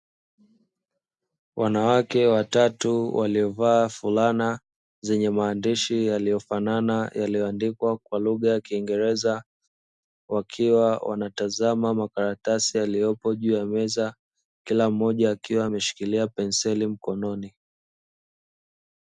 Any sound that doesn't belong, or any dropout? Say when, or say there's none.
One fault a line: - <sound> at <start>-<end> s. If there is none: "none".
none